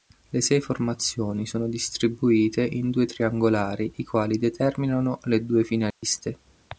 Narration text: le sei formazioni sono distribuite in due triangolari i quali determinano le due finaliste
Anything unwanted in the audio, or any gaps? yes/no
yes